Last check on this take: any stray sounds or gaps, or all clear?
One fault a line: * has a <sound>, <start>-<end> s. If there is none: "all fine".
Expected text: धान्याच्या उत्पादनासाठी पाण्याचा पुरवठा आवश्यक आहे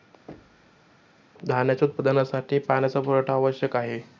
* has a thud, 0.3-0.9 s